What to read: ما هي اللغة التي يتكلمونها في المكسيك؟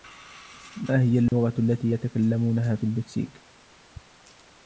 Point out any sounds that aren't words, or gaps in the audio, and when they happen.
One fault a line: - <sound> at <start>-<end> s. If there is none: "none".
- dropout at 1.3-1.3 s